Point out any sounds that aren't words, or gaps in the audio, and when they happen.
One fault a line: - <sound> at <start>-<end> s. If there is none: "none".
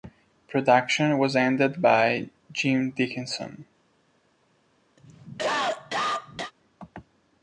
- cough at 5.0-6.5 s